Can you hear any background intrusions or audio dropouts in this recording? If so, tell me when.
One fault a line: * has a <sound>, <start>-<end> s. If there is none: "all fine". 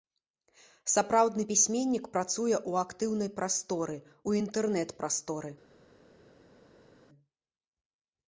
all fine